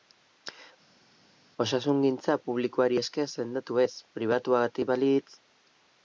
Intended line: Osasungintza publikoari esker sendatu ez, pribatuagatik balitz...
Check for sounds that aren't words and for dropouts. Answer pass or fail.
pass